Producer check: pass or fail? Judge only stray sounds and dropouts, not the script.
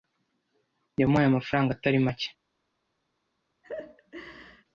fail